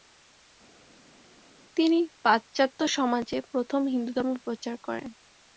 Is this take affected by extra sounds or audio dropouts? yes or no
no